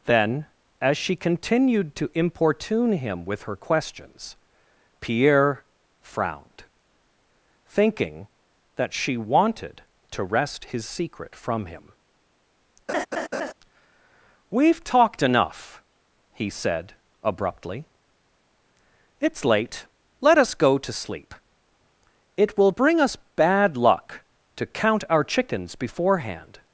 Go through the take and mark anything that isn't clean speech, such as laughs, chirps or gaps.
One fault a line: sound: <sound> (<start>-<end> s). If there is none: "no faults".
sound: laugh (12.9-13.5 s)